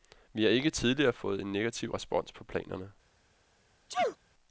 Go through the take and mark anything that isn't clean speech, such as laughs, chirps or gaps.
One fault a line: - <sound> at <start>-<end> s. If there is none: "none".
- sneeze at 3.9-4.2 s